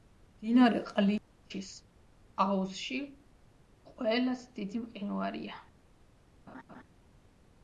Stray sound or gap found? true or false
true